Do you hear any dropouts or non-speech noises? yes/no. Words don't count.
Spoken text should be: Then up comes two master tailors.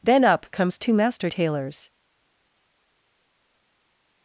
no